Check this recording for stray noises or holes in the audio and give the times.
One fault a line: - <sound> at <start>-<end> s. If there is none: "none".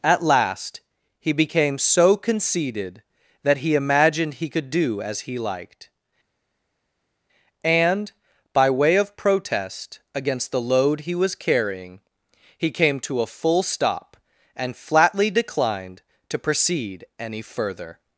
none